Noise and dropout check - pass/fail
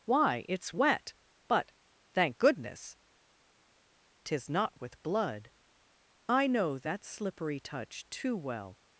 pass